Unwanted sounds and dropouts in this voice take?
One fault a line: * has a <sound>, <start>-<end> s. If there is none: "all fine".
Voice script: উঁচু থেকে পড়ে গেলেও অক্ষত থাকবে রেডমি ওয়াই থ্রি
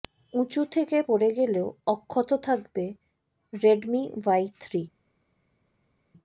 all fine